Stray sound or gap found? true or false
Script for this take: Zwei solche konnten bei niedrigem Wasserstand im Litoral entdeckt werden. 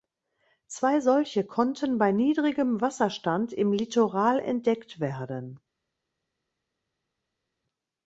false